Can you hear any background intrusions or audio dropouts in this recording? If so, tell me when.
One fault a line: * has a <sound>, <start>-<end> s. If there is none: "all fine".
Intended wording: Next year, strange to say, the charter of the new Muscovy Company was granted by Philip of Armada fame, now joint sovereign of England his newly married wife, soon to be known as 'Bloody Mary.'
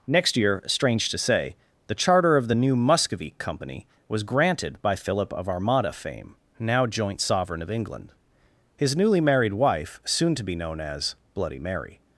all fine